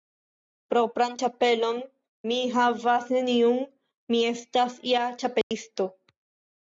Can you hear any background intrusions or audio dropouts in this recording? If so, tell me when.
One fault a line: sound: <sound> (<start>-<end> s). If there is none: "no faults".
sound: dropout (5.4-5.5 s)